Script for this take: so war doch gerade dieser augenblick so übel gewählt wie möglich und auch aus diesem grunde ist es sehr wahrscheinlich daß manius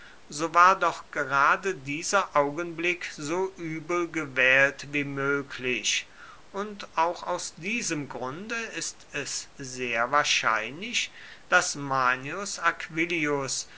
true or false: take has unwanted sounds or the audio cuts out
false